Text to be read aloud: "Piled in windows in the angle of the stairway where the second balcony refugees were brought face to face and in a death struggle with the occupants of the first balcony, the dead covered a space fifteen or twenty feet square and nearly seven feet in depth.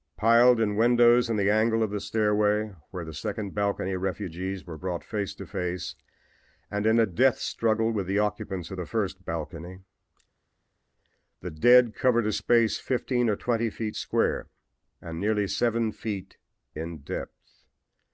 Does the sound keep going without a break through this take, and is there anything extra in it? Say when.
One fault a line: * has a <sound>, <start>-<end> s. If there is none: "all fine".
all fine